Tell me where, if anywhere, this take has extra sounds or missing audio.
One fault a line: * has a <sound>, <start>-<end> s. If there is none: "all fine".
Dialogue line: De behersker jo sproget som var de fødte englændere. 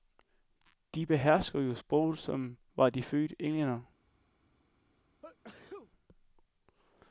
* has a sneeze, 5.2-5.9 s